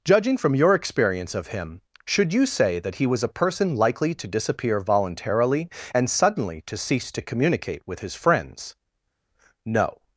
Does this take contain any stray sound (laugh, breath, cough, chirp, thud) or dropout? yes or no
no